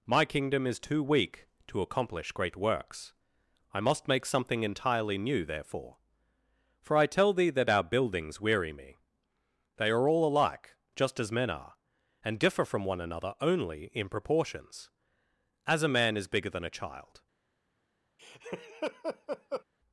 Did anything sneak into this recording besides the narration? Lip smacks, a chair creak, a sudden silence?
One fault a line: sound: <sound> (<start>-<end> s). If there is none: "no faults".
sound: laugh (18.2-19.6 s)